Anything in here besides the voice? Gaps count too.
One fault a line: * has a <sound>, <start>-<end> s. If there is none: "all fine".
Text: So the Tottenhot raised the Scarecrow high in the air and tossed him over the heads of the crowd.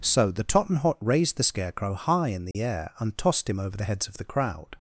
* has a dropout, 2.5-2.5 s